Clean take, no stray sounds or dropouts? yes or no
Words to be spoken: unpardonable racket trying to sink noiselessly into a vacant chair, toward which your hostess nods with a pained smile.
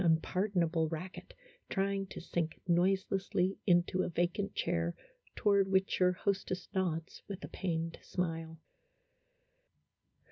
yes